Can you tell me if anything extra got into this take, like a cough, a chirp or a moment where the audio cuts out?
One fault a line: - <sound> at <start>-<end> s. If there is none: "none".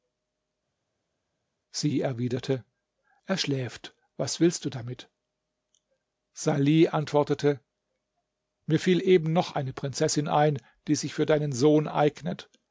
none